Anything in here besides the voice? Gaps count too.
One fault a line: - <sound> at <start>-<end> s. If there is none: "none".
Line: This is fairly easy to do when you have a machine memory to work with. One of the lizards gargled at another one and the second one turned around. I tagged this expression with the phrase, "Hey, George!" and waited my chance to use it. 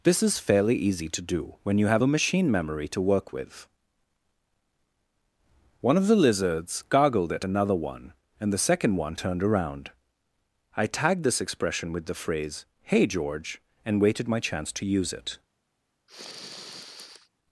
- sniff at 16.1-17.3 s